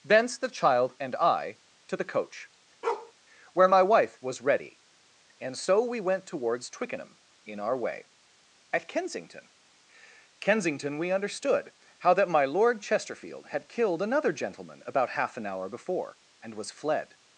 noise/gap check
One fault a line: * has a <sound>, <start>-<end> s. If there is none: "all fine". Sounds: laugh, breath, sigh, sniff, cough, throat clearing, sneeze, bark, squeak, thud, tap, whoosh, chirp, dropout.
* has a bark, 2.8-3.1 s